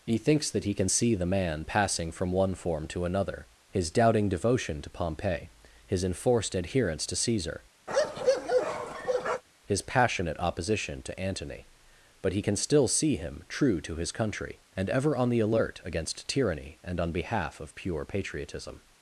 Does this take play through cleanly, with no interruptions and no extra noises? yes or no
no